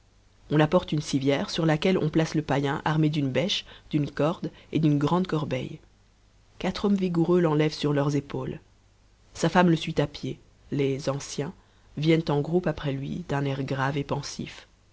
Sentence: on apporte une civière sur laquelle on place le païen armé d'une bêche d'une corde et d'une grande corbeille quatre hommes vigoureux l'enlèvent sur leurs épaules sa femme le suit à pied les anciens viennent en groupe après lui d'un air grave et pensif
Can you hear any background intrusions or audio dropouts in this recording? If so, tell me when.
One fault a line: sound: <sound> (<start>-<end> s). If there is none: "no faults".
no faults